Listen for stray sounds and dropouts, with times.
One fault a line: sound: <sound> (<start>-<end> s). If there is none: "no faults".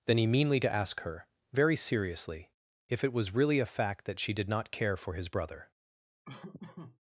sound: laugh (6.2-7.0 s)